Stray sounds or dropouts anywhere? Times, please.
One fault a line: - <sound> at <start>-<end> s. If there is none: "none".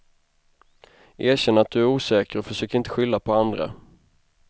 none